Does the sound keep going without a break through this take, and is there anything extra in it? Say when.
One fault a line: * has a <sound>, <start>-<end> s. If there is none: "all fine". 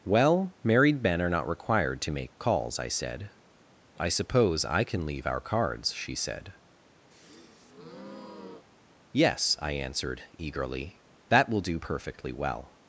* has a breath, 7.1-8.7 s